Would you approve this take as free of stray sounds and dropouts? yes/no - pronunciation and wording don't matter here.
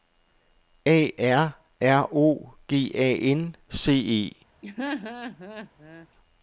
no